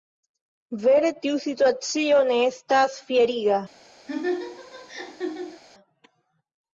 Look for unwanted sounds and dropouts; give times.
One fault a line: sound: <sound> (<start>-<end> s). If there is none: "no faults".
sound: laugh (4.1-5.6 s)